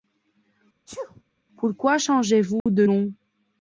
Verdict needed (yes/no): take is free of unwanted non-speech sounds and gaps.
no